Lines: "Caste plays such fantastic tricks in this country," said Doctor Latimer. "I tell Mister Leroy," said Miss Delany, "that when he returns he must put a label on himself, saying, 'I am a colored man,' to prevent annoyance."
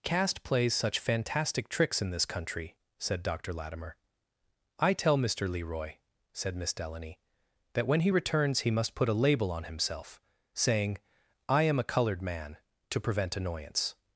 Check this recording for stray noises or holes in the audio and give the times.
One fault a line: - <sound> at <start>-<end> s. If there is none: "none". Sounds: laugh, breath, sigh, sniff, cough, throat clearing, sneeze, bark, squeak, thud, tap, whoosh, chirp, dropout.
none